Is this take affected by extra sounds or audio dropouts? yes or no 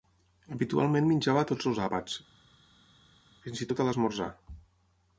no